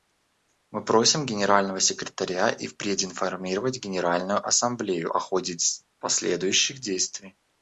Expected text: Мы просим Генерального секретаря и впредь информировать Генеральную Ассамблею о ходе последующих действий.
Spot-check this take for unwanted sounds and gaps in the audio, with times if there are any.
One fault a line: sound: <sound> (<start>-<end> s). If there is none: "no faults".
no faults